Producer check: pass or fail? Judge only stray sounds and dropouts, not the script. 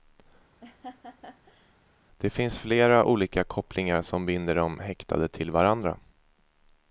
fail